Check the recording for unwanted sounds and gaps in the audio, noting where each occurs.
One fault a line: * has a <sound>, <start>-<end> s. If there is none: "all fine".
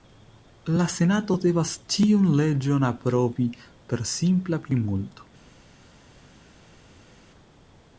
all fine